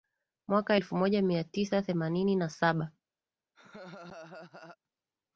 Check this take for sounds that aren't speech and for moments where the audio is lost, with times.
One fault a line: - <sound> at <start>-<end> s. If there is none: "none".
- laugh at 3.5-4.8 s